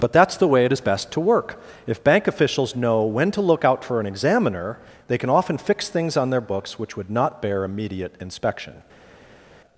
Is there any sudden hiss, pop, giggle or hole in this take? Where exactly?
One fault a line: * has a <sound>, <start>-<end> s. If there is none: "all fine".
all fine